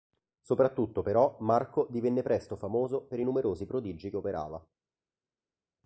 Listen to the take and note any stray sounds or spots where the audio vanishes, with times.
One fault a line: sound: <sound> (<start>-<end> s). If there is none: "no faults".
no faults